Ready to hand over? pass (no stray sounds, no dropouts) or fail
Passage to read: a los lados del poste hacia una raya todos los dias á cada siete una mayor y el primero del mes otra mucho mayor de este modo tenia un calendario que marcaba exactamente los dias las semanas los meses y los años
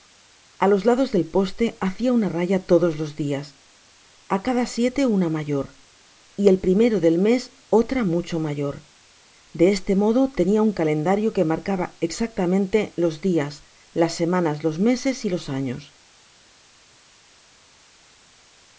pass